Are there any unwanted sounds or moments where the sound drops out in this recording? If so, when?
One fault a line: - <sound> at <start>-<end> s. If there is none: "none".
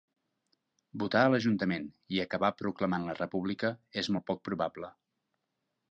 none